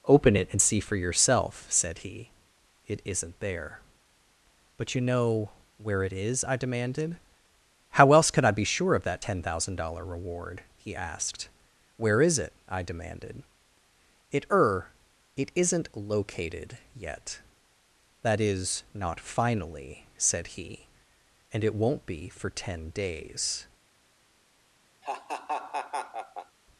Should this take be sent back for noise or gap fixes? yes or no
yes